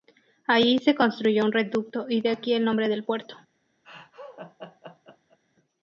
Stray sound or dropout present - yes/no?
yes